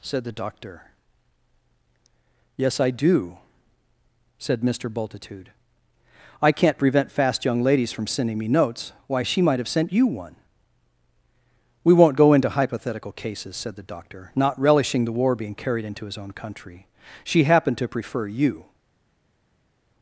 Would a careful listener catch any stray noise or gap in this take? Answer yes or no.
no